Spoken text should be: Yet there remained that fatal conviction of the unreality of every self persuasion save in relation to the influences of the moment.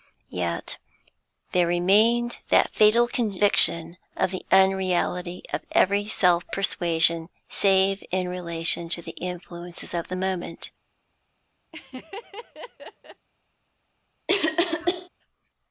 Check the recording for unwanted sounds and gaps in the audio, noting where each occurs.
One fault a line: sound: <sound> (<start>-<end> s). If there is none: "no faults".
sound: laugh (11.7-13.3 s)
sound: cough (14.3-15.1 s)